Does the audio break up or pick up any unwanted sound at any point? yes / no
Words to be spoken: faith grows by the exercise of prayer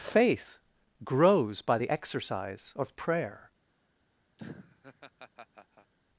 yes